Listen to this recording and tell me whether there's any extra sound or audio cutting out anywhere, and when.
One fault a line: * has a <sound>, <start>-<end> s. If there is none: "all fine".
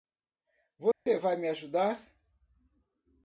* has a dropout, 0.9-1.1 s